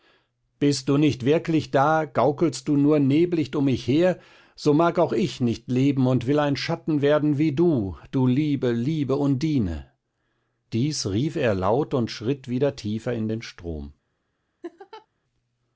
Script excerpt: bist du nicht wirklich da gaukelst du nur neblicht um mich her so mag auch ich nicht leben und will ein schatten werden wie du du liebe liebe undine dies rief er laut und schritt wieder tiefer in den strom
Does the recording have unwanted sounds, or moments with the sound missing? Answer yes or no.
yes